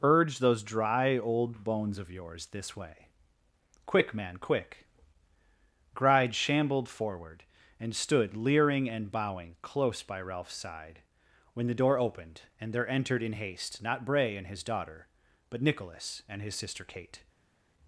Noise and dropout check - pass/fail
pass